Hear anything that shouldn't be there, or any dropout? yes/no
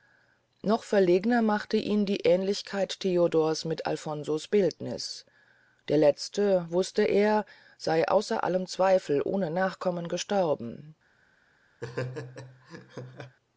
yes